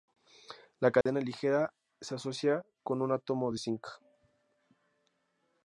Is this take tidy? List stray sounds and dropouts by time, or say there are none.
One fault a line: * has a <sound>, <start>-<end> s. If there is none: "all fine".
* has a dropout, 1.0-1.1 s